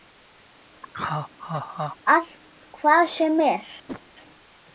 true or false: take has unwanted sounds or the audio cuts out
true